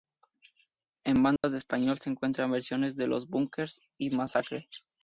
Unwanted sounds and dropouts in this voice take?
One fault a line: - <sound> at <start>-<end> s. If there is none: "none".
- dropout at 1.4-1.4 s